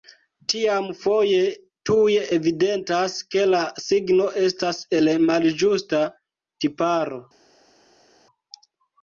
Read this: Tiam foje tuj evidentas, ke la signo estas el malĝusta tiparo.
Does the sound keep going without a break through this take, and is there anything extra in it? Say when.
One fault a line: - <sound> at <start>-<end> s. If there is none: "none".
none